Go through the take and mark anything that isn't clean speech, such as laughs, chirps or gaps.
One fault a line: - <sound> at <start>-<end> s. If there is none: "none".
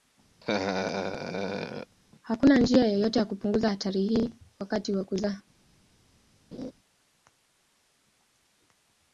- laugh at 0.4-2.0 s
- laugh at 6.5-6.7 s